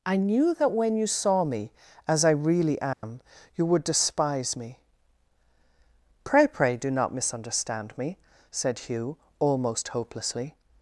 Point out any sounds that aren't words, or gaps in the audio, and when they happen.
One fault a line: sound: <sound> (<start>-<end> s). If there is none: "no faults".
sound: dropout (2.9-3.0 s)